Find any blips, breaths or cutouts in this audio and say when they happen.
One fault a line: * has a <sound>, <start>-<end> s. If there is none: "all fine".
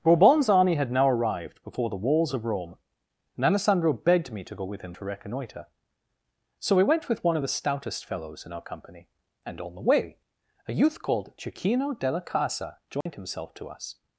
* has a dropout, 13.0-13.1 s